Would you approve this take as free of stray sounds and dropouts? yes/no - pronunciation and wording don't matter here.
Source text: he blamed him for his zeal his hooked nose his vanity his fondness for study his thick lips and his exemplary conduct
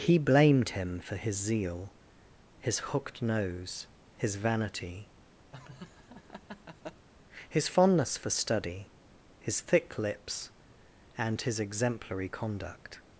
no